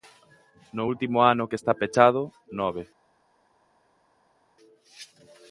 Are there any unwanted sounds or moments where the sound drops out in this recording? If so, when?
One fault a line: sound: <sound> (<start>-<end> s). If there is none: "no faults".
no faults